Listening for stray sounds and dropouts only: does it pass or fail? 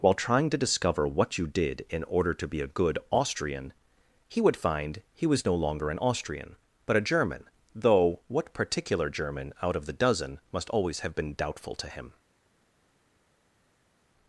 pass